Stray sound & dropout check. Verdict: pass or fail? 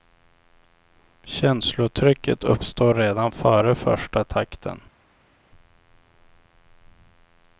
pass